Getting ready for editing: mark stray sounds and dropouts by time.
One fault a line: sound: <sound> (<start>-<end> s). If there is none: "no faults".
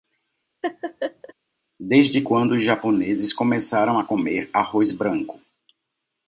sound: laugh (0.6-1.3 s)